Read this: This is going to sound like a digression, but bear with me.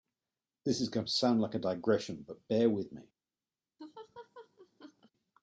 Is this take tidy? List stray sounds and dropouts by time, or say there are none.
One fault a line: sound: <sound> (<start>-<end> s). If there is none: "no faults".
sound: laugh (3.8-5.1 s)